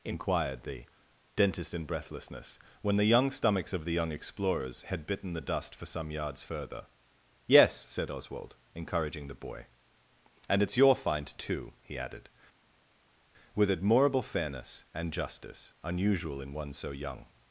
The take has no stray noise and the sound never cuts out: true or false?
true